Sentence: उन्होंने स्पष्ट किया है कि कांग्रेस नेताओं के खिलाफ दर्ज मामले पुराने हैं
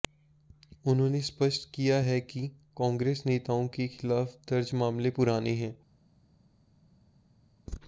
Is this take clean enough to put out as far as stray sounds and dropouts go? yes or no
yes